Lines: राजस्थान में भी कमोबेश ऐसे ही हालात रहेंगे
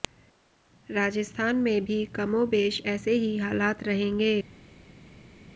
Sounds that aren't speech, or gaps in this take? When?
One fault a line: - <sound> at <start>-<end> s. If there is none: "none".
none